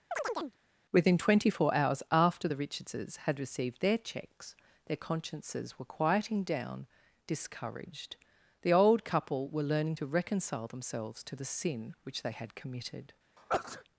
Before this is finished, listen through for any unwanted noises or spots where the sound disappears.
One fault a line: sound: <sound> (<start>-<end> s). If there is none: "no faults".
sound: chirp (0.1-0.6 s)
sound: sneeze (13.4-13.8 s)